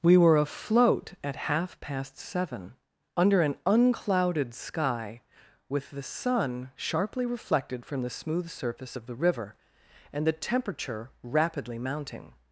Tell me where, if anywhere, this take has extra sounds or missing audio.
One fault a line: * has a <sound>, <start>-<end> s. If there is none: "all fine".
all fine